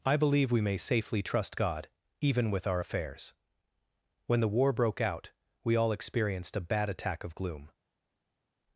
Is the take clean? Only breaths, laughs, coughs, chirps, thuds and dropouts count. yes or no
yes